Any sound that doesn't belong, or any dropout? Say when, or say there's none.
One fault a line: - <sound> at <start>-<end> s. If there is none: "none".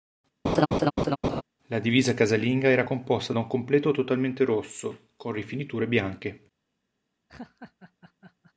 - laugh at 0.4-1.4 s
- laugh at 7.3-8.5 s